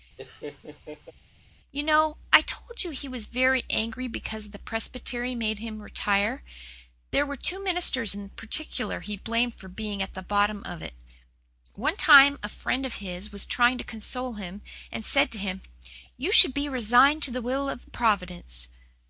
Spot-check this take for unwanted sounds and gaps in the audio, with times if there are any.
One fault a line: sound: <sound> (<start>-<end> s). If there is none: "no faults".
sound: laugh (0.2-1.1 s)